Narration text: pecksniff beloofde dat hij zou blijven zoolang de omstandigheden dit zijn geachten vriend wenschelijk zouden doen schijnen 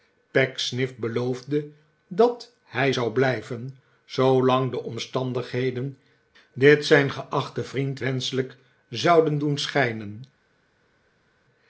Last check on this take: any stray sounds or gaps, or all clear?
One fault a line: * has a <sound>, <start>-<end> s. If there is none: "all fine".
all fine